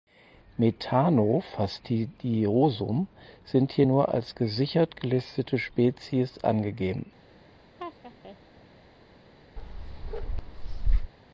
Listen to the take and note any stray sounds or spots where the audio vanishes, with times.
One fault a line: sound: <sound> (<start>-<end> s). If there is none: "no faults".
sound: laugh (7.8-8.4 s)
sound: bark (9.6-11.1 s)